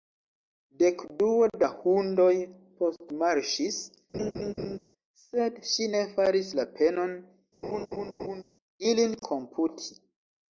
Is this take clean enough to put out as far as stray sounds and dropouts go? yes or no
no